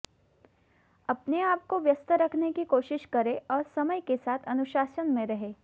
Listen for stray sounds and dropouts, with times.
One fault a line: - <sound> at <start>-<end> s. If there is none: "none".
none